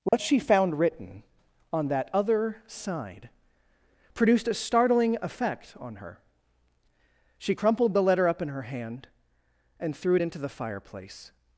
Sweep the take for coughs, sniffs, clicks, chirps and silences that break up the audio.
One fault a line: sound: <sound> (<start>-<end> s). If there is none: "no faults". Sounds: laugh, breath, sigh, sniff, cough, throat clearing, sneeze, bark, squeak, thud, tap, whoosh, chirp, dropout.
sound: dropout (0.1-0.1 s)